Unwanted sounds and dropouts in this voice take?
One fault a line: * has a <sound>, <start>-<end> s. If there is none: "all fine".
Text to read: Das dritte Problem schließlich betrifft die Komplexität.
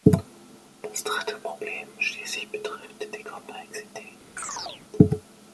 * has a chirp, 4.4-4.8 s